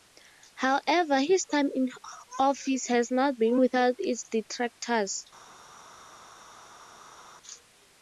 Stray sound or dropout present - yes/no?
no